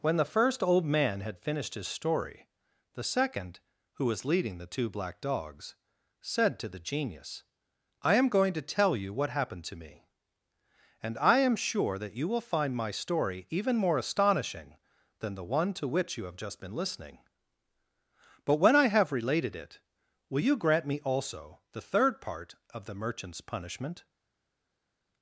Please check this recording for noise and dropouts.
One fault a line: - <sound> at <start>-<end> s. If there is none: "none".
none